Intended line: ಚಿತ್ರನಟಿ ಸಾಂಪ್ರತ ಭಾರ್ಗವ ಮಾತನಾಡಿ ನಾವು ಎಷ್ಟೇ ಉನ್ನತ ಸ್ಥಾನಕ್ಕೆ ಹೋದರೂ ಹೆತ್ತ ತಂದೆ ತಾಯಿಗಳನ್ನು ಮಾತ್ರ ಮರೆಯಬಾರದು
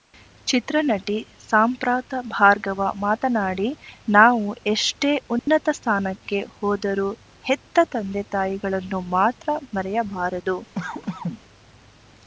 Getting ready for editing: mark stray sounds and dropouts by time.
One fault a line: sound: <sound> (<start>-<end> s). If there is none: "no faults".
sound: dropout (5.4-5.5 s)
sound: cough (10.7-11.4 s)